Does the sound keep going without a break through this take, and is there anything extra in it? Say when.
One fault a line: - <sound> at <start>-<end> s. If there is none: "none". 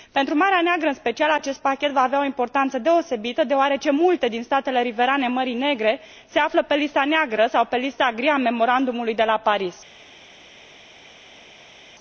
none